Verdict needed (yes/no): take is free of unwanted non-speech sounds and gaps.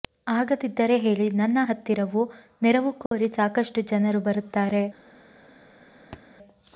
no